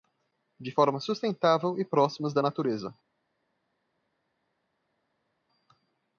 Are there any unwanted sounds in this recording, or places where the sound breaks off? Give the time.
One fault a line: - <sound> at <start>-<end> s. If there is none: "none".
none